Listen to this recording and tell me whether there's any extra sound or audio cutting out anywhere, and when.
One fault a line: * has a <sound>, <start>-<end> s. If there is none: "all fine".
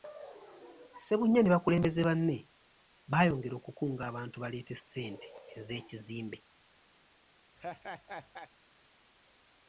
* has a laugh, 7.6-8.5 s